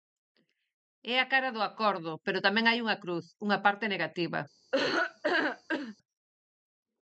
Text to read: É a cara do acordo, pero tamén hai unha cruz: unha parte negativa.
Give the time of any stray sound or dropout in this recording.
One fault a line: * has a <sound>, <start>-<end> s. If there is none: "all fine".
* has a laugh, 4.7-6.0 s